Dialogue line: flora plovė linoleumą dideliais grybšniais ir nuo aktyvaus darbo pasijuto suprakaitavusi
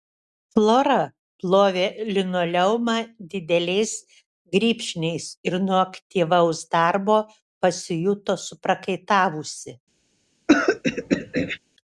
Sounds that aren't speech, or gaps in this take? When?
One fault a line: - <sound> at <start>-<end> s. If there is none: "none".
- throat clearing at 10.5-11.6 s